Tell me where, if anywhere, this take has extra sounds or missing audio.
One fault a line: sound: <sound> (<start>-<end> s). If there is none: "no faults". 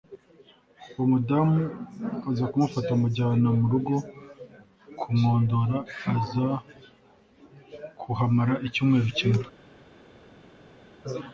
no faults